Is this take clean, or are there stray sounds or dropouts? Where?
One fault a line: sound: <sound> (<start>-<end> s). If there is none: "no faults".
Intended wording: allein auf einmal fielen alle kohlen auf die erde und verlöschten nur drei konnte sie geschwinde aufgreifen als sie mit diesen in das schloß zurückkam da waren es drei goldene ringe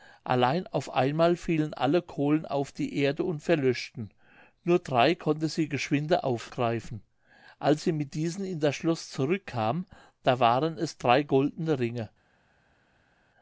no faults